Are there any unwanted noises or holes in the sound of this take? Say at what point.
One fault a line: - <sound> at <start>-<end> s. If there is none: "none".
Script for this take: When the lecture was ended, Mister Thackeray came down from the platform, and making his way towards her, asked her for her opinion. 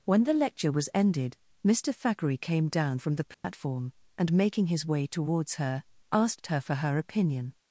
- dropout at 3.3-3.4 s